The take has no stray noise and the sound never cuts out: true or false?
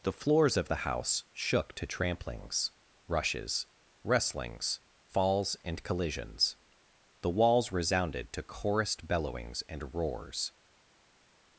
true